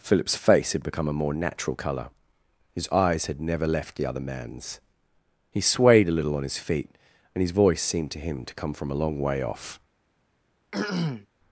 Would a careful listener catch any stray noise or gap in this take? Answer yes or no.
yes